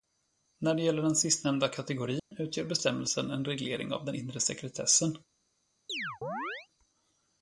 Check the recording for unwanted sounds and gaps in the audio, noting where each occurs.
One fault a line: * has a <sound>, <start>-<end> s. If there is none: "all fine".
* has a dropout, 2.2-2.3 s
* has a chirp, 5.9-6.7 s